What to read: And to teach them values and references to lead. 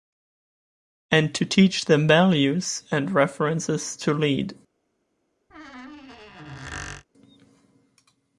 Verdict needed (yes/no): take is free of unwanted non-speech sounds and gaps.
no